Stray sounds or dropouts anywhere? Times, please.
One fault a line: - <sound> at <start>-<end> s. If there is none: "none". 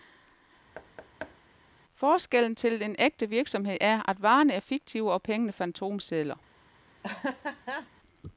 - thud at 0.7-1.4 s
- laugh at 7.0-7.9 s